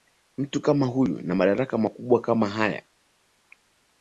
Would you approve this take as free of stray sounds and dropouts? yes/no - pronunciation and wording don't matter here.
yes